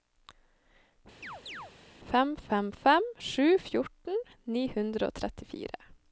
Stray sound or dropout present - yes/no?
yes